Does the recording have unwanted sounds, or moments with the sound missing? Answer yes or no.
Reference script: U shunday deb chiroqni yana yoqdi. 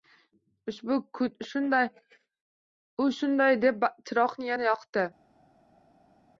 no